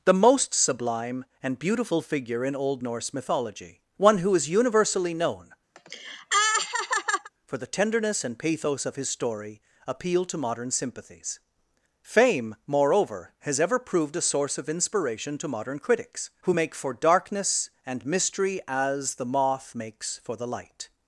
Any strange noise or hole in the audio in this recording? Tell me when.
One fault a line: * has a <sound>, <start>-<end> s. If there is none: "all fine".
* has a laugh, 5.8-7.3 s